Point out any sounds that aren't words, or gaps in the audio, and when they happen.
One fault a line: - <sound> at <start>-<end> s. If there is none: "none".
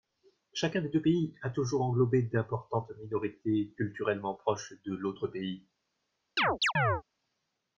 - chirp at 6.4-7.0 s